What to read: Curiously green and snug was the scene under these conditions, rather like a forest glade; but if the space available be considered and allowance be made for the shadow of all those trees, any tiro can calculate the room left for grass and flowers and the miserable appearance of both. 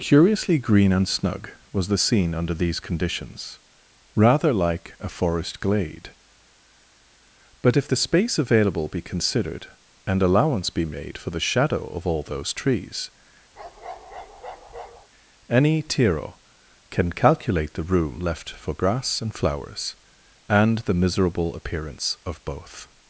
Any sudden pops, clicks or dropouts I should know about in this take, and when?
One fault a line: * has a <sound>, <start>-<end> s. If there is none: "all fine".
* has a bark, 13.5-15.1 s